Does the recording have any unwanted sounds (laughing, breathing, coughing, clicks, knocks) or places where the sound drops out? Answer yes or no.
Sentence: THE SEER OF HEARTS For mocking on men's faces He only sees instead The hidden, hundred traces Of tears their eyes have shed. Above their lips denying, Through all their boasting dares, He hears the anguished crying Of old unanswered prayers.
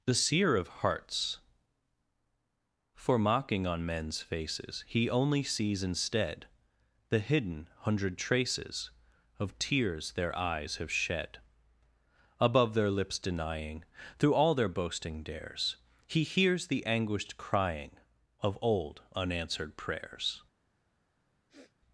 yes